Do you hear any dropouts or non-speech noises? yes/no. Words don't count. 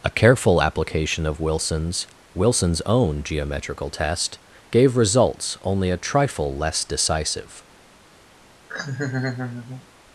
yes